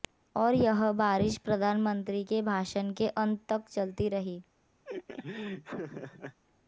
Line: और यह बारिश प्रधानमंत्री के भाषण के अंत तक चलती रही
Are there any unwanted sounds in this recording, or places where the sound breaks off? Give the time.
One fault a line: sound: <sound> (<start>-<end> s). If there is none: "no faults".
sound: laugh (4.8-6.4 s)